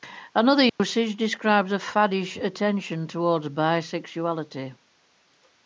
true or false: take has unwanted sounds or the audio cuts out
true